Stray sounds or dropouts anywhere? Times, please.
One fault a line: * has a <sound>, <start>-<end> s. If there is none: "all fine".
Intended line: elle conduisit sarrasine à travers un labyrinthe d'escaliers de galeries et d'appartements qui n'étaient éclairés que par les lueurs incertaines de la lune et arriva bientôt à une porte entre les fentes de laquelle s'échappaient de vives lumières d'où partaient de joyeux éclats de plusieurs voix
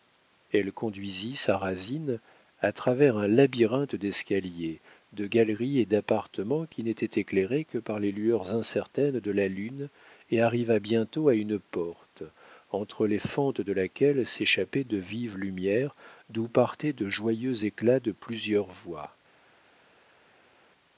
all fine